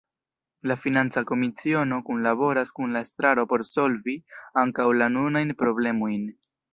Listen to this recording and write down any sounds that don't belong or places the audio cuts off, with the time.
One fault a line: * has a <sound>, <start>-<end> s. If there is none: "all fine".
all fine